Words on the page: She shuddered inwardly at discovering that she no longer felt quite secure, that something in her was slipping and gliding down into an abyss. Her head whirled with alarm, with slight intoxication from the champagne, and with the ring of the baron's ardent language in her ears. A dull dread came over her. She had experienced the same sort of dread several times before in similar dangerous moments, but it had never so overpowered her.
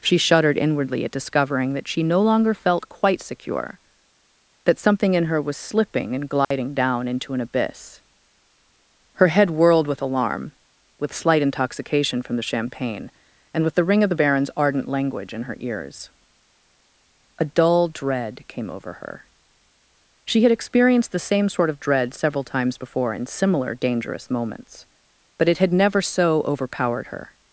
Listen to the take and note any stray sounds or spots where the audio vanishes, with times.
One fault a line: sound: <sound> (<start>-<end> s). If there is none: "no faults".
sound: dropout (6.4-6.5 s)